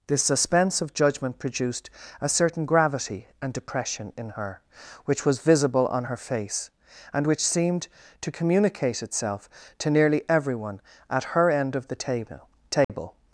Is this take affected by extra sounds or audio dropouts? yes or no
yes